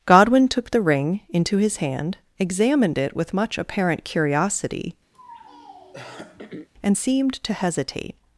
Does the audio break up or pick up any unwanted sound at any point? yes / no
yes